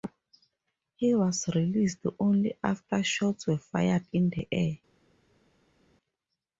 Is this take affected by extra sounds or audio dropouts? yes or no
no